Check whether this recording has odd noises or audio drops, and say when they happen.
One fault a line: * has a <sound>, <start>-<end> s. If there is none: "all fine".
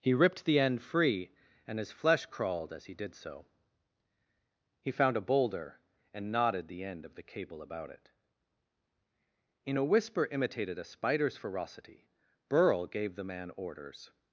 all fine